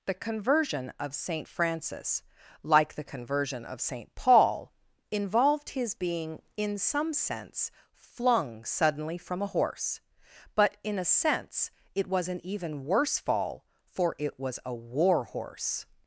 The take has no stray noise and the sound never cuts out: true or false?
true